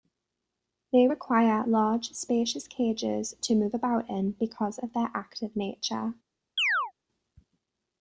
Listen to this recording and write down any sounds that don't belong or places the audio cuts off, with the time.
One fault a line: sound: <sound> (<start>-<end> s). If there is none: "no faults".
sound: chirp (6.6-6.9 s)